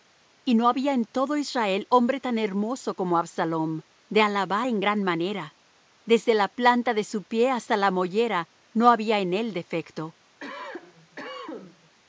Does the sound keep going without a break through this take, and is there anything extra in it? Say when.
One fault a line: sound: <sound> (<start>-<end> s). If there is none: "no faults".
sound: cough (10.4-12.0 s)